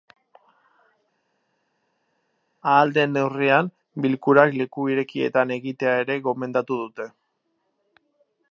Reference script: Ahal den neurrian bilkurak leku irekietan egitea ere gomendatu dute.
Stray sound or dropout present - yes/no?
no